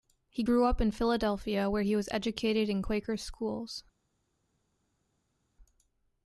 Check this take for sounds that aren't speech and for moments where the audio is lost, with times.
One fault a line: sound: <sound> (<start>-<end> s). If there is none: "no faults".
no faults